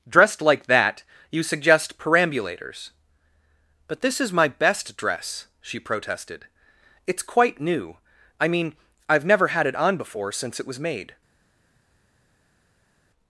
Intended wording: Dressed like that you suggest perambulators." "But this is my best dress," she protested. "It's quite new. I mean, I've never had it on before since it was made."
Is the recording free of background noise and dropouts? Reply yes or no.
yes